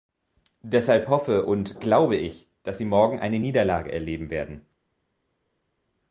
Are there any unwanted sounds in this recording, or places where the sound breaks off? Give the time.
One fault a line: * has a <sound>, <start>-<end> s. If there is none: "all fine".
all fine